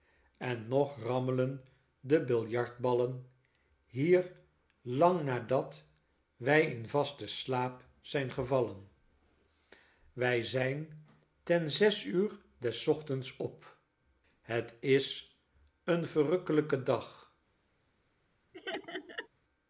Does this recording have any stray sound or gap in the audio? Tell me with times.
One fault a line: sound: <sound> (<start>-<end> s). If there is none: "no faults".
sound: laugh (18.5-19.3 s)